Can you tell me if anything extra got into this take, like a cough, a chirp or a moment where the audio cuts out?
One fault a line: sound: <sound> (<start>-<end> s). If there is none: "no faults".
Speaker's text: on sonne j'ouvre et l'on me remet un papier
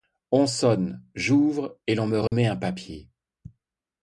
sound: dropout (2.3-2.3 s)